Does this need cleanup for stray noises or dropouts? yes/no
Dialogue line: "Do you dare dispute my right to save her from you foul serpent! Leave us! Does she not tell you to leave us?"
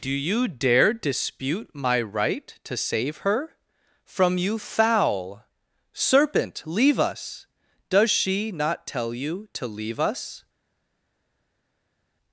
no